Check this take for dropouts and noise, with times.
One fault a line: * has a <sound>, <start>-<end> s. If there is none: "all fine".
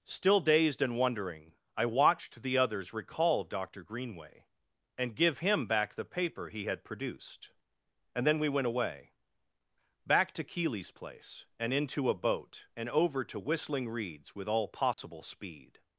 * has a dropout, 14.9-15.0 s